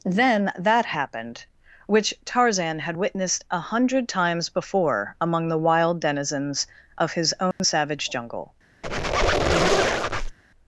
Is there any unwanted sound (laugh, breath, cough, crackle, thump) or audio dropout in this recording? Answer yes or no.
yes